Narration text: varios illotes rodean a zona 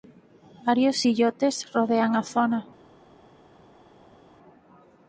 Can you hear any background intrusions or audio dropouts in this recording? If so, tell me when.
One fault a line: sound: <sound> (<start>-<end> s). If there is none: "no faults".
no faults